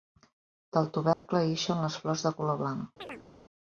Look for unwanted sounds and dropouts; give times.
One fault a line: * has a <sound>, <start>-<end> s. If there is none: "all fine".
* has a dropout, 1.1-1.3 s
* has a chirp, 3.0-3.3 s